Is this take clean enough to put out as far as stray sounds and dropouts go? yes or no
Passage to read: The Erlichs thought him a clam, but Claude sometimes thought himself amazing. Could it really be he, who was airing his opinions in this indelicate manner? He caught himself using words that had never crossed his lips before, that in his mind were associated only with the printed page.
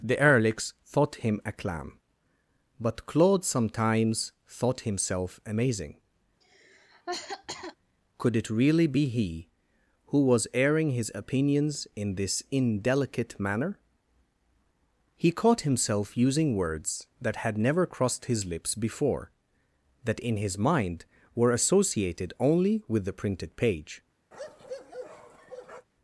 no